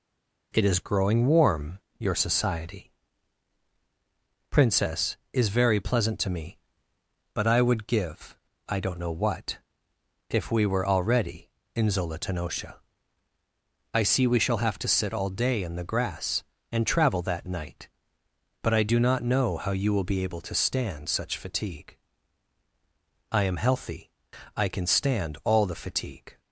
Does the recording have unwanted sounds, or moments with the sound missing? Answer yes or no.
no